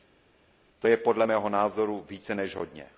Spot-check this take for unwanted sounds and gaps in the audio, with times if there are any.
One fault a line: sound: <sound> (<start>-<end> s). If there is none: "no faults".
no faults